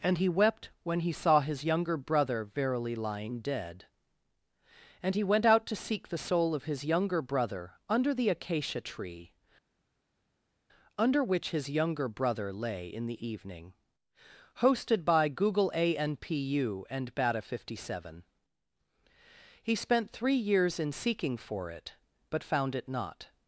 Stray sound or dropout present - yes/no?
no